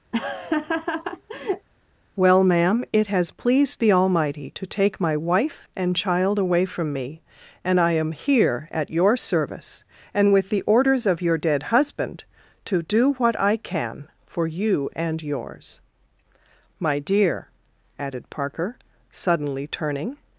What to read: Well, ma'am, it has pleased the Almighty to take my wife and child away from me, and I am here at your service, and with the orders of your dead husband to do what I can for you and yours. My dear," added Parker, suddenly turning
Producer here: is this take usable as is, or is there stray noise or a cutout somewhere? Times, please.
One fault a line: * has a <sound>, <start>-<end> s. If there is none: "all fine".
* has a laugh, 0.1-1.7 s